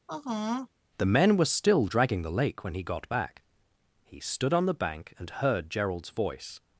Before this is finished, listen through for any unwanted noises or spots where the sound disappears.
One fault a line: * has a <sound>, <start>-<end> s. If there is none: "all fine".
* has a sigh, 0.1-0.7 s